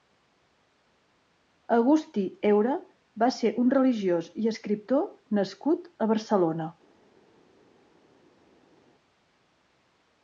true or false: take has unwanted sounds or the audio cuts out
false